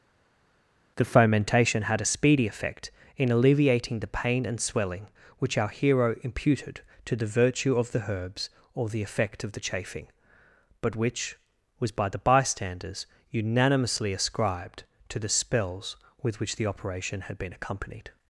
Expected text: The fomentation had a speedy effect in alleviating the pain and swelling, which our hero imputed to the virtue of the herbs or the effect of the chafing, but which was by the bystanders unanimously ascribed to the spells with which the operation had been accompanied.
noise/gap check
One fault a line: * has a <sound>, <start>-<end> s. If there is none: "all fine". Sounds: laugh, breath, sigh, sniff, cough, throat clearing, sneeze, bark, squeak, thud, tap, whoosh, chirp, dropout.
all fine